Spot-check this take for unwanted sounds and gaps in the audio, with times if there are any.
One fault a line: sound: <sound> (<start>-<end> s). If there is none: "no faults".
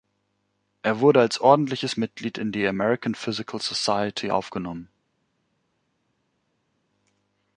no faults